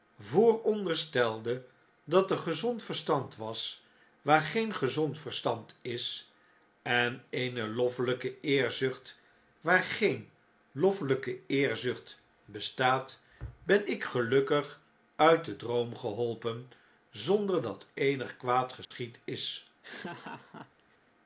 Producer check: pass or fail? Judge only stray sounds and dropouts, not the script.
fail